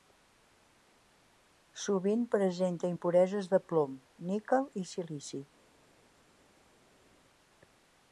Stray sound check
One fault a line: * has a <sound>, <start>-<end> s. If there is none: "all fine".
all fine